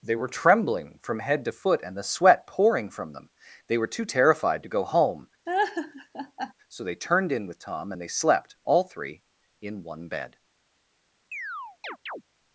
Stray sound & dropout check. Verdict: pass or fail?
fail